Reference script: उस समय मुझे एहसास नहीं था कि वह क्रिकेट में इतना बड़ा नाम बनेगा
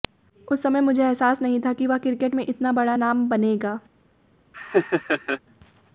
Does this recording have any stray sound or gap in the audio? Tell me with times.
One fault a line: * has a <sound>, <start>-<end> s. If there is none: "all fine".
* has a laugh, 4.5-5.4 s